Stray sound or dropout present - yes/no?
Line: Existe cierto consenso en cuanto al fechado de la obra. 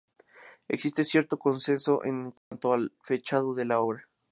yes